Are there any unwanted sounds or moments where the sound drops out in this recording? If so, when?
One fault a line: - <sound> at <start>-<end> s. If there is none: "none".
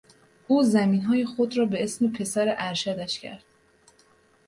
none